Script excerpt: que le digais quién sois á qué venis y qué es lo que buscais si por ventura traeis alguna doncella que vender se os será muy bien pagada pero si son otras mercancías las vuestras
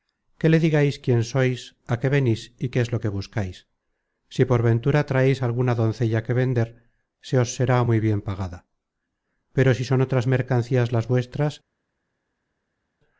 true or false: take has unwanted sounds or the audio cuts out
false